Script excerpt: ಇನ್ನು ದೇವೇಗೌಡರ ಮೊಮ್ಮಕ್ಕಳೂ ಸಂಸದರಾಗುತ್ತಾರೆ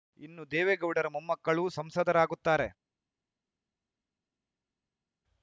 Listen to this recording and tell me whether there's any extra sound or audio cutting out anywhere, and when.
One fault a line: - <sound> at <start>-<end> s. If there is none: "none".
none